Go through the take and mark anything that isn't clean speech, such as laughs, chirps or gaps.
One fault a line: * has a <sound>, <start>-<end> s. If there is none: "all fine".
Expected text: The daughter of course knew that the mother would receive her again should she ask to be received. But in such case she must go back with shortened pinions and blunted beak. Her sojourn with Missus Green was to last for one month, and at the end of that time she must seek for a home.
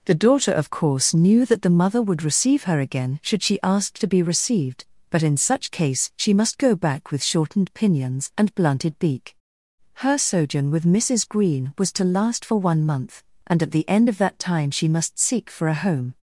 all fine